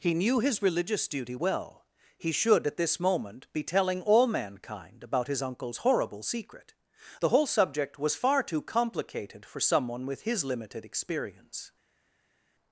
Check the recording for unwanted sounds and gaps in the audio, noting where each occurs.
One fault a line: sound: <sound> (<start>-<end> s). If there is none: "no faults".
no faults